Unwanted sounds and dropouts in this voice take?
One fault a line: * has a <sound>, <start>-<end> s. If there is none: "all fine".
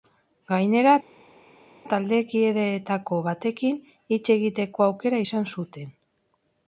all fine